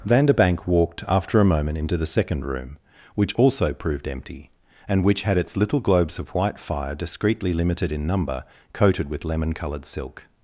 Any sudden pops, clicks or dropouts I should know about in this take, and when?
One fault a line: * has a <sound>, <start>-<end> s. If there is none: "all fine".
all fine